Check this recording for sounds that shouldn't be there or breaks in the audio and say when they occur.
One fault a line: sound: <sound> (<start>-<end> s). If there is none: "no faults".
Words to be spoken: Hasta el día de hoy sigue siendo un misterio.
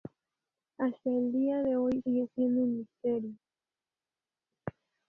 no faults